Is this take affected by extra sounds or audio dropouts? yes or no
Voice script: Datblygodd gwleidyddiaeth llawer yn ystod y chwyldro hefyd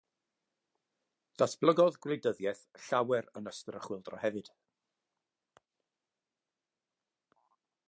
no